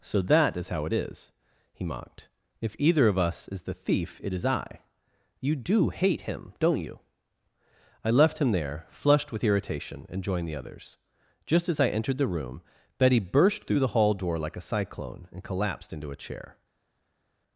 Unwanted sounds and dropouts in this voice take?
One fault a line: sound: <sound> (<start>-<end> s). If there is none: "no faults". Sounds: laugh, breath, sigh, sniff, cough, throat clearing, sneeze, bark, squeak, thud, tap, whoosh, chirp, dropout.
no faults